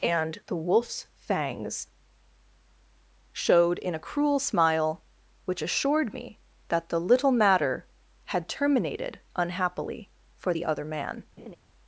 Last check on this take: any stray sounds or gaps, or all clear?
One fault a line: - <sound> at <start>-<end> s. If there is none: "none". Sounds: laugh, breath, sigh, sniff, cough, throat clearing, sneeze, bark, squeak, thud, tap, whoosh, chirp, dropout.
- laugh at 11.4-11.6 s